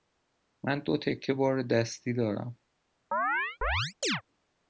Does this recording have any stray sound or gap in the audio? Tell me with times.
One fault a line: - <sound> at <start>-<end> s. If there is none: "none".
- chirp at 3.1-4.2 s